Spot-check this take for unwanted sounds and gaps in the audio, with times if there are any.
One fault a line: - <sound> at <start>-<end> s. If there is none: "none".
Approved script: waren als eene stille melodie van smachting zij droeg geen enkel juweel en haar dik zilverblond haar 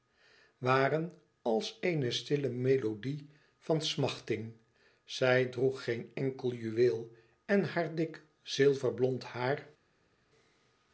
none